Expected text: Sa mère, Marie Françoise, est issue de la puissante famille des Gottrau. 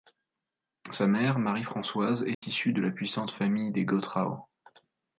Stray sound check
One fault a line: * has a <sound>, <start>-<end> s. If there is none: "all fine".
* has a dropout, 2.3-2.4 s